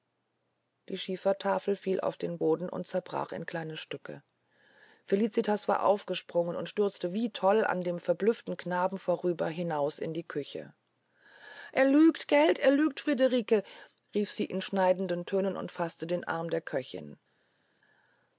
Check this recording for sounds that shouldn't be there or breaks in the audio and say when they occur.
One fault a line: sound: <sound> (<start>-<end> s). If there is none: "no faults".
no faults